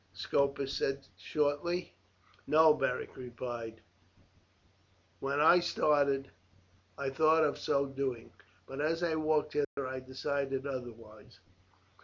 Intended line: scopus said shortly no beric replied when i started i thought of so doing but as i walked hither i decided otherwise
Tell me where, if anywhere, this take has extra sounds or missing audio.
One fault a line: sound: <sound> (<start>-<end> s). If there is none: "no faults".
sound: dropout (9.6-9.8 s)